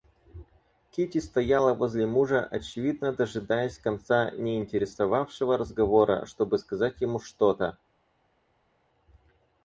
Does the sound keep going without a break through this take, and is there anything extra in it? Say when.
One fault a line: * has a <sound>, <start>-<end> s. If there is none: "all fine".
all fine